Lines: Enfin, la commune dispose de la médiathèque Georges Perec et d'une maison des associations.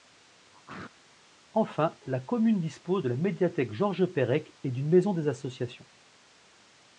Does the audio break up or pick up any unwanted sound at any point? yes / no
yes